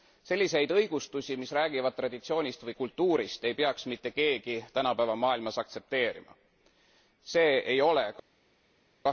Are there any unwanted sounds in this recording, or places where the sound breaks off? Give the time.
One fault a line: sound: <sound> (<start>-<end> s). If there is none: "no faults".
no faults